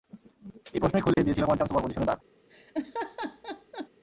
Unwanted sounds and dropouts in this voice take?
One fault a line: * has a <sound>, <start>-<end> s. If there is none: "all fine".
* has a dropout, 1.1-1.2 s
* has a laugh, 2.5-3.9 s